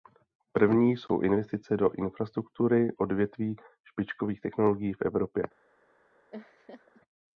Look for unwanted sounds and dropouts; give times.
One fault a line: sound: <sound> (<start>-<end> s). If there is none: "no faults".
sound: laugh (6.3-7.0 s)